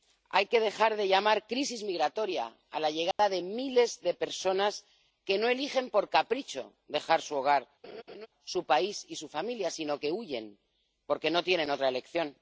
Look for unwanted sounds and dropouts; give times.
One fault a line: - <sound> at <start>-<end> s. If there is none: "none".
- dropout at 3.1-3.2 s
- laugh at 7.8-8.3 s